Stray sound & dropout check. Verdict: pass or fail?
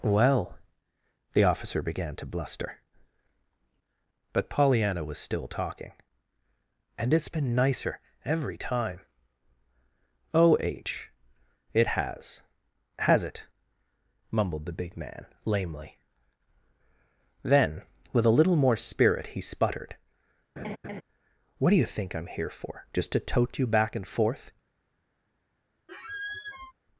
fail